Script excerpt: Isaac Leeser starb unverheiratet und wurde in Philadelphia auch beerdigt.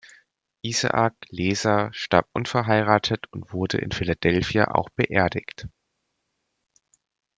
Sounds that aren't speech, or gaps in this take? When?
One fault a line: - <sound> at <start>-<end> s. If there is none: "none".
none